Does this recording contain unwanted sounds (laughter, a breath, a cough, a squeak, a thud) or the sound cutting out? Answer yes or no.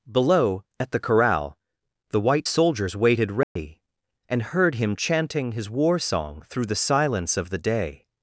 yes